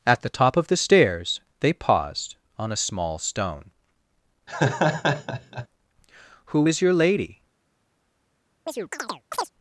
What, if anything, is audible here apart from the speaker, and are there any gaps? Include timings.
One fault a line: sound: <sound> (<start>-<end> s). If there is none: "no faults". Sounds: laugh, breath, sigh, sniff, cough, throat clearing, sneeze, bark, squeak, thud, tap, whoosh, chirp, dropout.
sound: laugh (4.5-5.7 s)
sound: chirp (8.7-9.5 s)